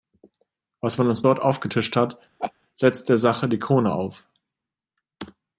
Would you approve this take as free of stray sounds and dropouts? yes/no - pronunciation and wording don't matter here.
no